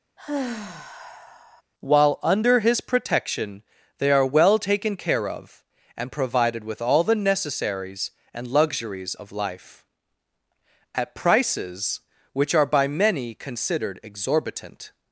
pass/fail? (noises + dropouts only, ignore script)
fail